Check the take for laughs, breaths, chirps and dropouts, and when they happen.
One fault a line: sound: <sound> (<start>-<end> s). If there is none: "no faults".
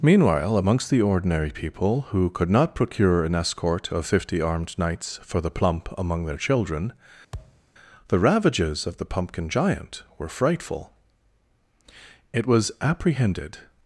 sound: thud (7.3-7.6 s)